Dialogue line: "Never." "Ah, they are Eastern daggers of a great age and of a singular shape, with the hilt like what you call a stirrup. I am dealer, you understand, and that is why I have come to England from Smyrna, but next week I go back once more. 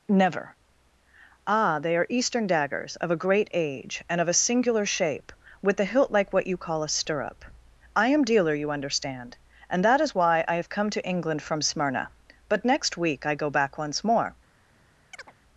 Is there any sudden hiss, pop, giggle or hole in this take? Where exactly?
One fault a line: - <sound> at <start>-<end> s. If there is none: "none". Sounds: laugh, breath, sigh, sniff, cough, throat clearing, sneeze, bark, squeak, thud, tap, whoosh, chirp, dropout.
- chirp at 15.1-15.3 s